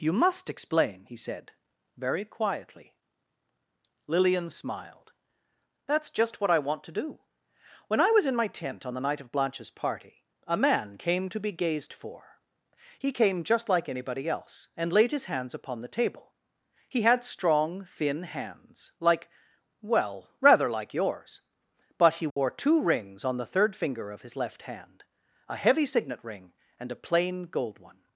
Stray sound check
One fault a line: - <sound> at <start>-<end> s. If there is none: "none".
- dropout at 22.3-22.4 s